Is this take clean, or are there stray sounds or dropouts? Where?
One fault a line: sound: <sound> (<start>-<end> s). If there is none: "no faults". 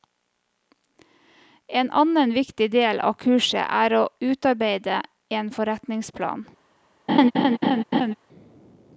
sound: laugh (7.1-8.1 s)